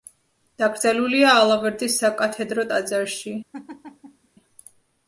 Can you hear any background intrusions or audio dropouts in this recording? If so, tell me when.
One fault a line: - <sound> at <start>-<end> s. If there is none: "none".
- laugh at 3.5-4.3 s